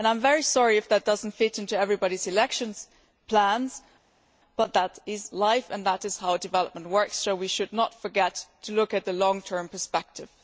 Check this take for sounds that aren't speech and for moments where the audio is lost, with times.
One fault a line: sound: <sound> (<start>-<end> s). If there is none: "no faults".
no faults